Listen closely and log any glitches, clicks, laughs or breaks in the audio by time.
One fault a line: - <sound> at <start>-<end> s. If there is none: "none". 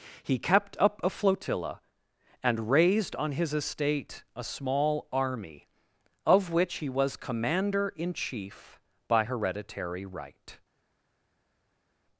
none